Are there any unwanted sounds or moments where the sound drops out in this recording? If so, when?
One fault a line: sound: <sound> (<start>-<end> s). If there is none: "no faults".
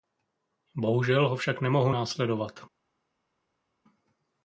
no faults